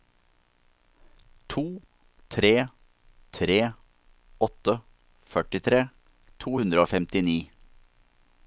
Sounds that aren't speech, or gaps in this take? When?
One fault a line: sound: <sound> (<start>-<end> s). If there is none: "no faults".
no faults